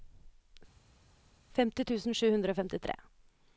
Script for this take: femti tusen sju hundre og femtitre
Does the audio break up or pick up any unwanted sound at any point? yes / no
no